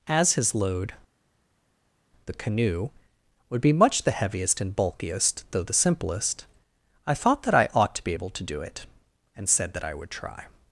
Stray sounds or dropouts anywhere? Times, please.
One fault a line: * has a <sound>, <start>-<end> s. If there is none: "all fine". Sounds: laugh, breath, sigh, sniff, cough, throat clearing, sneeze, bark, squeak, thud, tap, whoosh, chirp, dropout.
all fine